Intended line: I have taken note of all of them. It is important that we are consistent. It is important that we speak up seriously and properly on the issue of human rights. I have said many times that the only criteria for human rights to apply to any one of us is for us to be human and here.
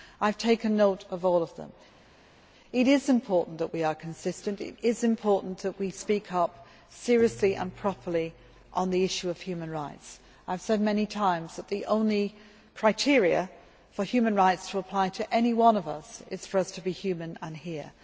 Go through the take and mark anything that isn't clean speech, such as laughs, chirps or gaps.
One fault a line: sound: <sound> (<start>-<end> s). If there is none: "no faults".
no faults